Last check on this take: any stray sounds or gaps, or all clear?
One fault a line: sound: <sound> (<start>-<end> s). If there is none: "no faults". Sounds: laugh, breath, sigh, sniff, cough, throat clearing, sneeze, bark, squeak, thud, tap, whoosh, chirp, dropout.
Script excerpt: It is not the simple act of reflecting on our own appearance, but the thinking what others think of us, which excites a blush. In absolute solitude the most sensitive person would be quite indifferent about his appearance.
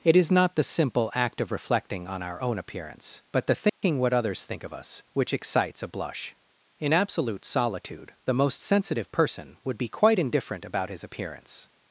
sound: dropout (3.7-3.8 s)